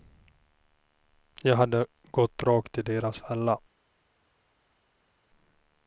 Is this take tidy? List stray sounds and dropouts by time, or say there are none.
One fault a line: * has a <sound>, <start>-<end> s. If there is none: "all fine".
all fine